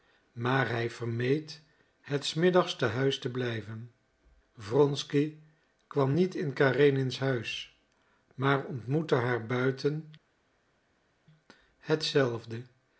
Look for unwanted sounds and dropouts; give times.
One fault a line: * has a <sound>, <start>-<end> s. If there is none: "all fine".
all fine